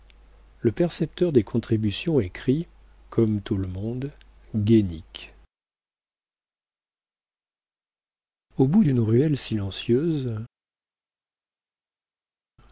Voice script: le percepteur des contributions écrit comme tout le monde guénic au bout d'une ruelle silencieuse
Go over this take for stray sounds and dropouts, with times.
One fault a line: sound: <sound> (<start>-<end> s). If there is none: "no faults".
no faults